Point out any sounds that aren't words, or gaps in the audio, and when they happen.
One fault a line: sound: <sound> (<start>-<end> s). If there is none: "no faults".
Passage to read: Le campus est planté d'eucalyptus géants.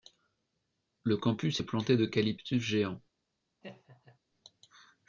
sound: laugh (3.6-4.2 s)